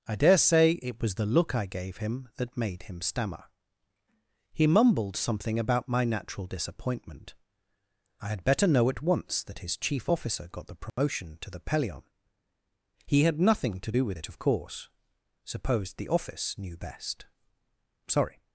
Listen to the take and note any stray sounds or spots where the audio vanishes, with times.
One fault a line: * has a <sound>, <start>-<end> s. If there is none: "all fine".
* has a dropout, 10.9-11.0 s